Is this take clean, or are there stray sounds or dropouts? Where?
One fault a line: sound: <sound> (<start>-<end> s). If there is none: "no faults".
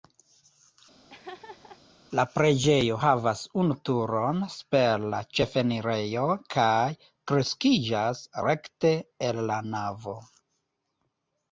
sound: laugh (1.1-1.8 s)